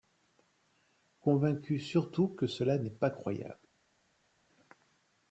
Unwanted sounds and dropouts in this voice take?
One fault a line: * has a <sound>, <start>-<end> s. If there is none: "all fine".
all fine